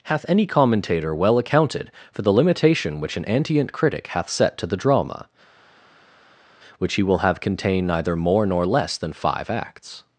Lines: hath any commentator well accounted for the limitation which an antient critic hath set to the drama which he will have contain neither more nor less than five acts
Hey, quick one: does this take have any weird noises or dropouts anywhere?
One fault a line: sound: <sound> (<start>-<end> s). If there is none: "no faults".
no faults